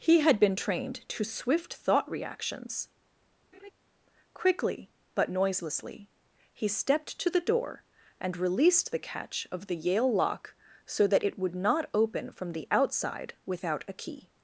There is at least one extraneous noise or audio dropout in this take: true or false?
true